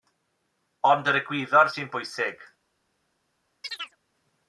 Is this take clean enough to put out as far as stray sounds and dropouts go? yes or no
no